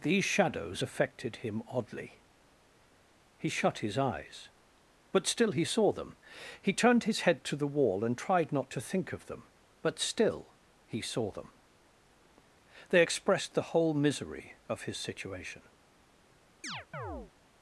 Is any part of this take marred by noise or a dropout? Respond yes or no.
yes